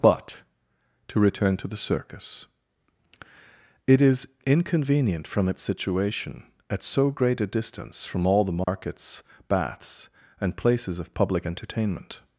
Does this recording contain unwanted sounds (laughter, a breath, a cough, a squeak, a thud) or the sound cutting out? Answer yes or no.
yes